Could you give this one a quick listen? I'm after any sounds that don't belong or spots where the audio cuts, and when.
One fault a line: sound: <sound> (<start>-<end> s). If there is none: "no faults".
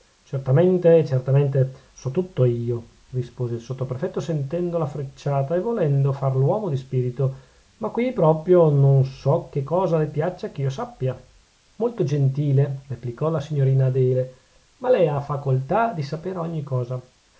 no faults